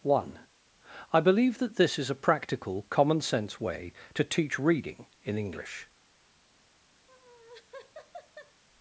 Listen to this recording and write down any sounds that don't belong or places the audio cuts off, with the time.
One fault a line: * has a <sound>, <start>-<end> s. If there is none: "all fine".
* has a laugh, 7.1-8.6 s